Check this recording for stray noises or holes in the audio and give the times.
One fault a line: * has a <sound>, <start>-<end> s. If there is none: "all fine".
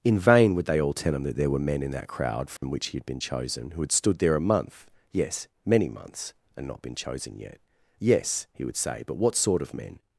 * has a dropout, 2.6-2.6 s